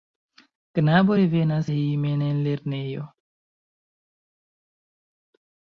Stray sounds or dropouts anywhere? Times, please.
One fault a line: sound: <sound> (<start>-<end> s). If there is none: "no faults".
no faults